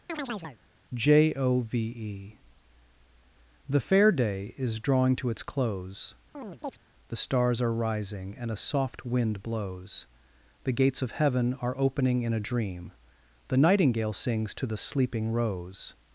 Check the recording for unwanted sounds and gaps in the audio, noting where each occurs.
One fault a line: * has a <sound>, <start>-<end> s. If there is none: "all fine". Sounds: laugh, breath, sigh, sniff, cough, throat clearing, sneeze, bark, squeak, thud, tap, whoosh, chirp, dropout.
* has a chirp, 0.1-0.6 s
* has a chirp, 6.3-6.8 s